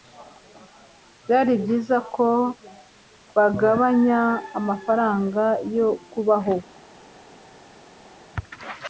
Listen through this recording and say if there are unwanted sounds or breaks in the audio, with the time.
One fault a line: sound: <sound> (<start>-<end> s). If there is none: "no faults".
no faults